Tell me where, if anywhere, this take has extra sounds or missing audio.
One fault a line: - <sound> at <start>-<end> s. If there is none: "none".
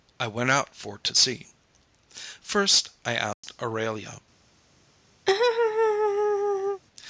- dropout at 3.3-3.4 s
- laugh at 5.3-6.8 s